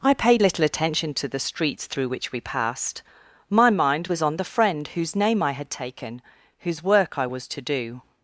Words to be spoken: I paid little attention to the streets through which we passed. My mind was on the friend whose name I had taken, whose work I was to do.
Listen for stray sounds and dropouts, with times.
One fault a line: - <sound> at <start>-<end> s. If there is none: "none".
none